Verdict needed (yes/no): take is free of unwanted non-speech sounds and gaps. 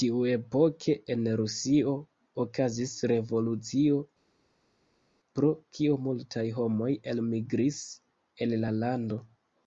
yes